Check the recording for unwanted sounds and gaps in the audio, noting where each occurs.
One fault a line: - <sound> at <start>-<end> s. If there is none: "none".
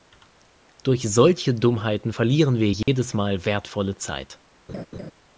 - dropout at 2.8-2.9 s
- laugh at 4.7-5.1 s